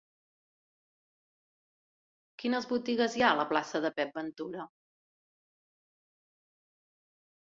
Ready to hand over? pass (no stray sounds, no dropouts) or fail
pass